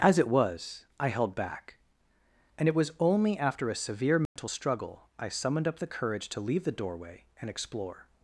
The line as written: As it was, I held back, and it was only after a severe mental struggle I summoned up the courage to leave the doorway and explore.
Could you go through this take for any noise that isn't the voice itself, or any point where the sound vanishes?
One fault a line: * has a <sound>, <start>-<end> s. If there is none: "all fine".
* has a dropout, 4.3-4.4 s